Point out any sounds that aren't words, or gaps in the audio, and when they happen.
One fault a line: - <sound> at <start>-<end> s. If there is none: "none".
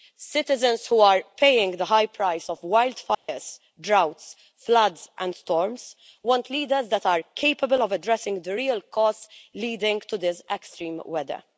- dropout at 3.1-3.3 s